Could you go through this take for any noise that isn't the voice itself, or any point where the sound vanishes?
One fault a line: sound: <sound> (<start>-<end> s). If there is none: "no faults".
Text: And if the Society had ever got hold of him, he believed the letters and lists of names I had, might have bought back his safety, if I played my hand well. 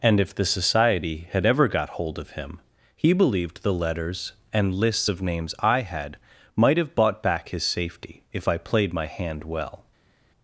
no faults